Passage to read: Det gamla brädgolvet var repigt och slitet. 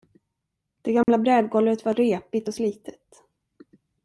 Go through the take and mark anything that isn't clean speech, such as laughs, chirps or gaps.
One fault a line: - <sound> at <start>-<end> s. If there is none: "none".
- dropout at 1.0-1.1 s